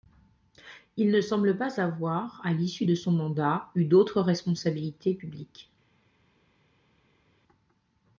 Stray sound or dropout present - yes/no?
no